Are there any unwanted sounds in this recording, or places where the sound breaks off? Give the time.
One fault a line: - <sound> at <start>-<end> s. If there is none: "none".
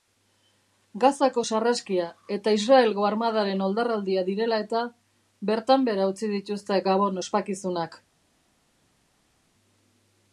none